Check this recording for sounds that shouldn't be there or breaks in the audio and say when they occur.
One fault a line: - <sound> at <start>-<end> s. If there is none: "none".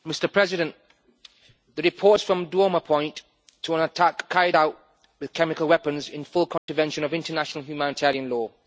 - dropout at 6.6-6.7 s